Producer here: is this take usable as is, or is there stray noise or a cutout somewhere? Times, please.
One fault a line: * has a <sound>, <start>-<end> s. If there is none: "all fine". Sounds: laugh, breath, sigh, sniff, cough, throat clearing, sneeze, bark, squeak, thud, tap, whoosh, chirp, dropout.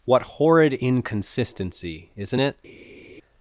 all fine